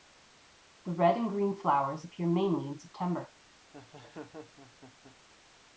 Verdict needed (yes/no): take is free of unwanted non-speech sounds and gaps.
no